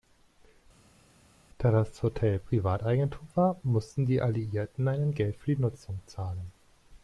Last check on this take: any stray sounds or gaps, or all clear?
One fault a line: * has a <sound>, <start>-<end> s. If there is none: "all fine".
all fine